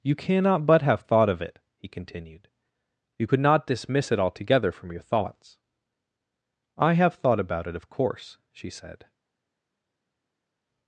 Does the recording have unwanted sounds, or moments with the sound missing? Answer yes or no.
no